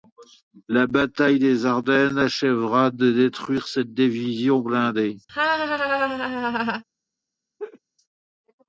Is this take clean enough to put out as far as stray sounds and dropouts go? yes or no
no